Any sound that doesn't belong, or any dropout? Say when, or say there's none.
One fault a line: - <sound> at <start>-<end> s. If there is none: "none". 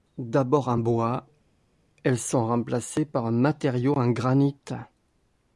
none